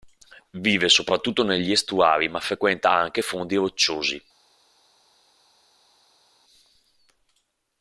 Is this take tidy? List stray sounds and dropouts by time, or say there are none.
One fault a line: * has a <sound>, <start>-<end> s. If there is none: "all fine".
all fine